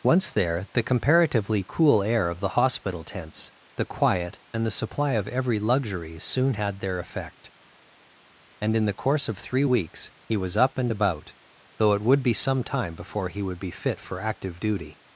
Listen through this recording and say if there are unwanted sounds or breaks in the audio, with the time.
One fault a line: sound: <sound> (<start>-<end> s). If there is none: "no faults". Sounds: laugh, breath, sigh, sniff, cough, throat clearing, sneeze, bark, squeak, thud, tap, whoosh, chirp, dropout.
no faults